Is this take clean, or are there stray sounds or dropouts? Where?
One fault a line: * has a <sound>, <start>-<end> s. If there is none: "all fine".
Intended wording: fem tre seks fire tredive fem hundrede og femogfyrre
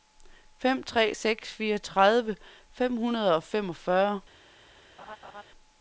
* has a laugh, 5.0-5.4 s